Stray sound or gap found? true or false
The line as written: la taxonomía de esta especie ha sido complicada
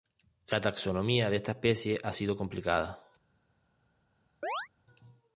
true